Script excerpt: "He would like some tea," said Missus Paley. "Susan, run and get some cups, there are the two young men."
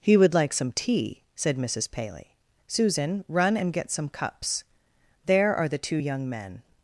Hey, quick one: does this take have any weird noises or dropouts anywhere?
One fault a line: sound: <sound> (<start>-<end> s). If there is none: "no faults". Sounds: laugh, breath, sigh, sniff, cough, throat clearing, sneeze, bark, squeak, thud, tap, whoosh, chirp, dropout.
no faults